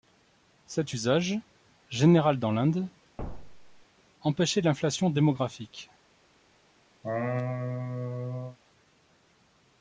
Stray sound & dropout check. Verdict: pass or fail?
fail